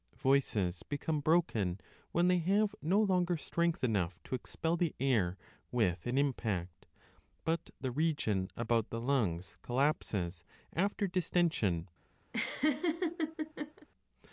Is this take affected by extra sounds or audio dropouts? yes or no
yes